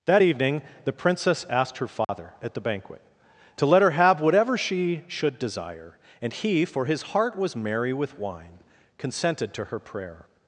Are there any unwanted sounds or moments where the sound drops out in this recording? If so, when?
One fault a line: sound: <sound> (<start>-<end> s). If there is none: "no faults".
sound: dropout (2.0-2.1 s)